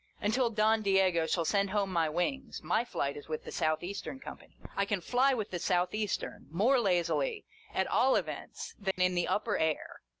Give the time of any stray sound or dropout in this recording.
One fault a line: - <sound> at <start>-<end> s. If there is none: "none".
- dropout at 8.9-9.0 s